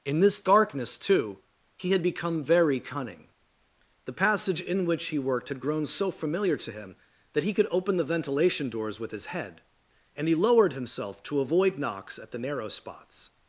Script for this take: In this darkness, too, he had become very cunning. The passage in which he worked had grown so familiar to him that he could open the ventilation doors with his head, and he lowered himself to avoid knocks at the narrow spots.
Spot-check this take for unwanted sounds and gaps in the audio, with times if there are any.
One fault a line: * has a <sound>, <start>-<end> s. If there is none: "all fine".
all fine